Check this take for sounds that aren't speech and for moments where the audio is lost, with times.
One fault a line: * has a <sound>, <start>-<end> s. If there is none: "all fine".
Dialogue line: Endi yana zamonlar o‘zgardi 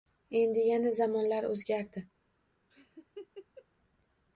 * has a laugh, 2.7-3.7 s